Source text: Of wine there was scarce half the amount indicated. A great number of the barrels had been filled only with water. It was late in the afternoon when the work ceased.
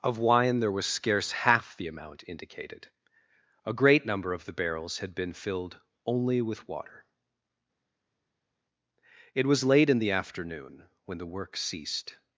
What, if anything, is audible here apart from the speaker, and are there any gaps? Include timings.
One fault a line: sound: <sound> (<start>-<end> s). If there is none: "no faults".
no faults